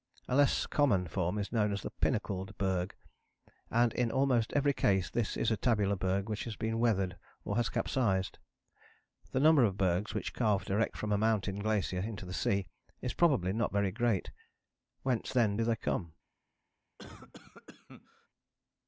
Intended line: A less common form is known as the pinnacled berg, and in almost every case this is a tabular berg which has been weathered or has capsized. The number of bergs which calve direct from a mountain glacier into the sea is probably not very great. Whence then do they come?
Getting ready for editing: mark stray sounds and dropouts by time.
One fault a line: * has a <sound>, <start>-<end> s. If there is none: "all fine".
* has a cough, 17.0-18.3 s